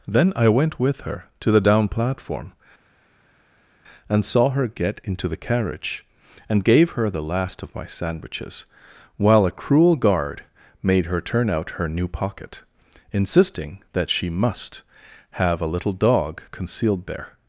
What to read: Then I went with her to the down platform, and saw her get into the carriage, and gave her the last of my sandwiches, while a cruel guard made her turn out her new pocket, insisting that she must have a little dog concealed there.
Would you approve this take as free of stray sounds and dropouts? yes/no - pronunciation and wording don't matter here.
yes